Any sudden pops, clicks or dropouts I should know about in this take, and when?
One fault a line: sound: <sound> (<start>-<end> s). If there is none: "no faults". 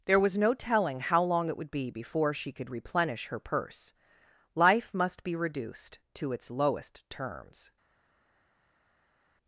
no faults